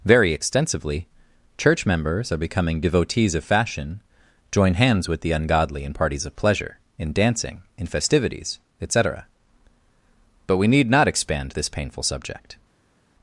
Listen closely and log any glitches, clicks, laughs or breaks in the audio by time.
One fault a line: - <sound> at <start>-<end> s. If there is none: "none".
none